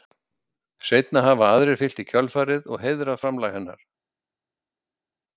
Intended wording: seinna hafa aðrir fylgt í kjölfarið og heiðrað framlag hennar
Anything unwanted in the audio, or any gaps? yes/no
no